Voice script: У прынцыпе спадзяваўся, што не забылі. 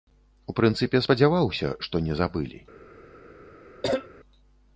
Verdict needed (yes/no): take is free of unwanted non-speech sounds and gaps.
no